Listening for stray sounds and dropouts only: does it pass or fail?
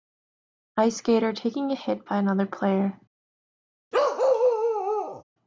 fail